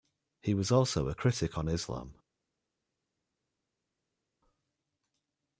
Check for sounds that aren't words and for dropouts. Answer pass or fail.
pass